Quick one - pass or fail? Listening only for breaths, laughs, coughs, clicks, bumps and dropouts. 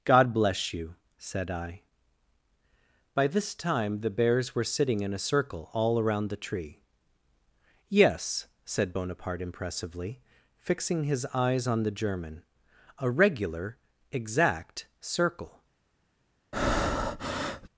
fail